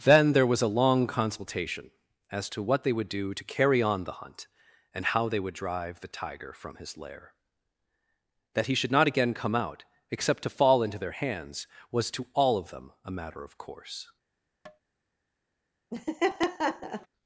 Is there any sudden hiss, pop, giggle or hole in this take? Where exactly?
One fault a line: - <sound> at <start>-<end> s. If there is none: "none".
- tap at 14.7-14.8 s
- laugh at 15.9-17.1 s